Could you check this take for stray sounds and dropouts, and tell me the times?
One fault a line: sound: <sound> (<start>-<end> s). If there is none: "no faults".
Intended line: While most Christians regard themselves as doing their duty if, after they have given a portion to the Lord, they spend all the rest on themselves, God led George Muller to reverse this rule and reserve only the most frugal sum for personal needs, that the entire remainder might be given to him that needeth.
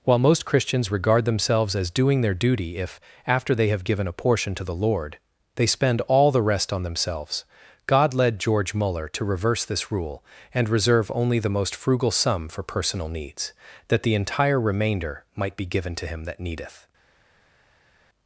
no faults